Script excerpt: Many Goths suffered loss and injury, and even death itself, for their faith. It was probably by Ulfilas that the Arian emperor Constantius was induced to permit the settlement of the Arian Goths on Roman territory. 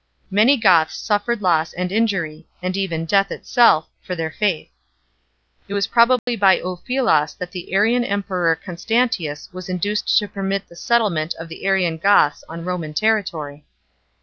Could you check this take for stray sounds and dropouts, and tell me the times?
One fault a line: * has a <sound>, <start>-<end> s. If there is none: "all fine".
* has a dropout, 6.2-6.3 s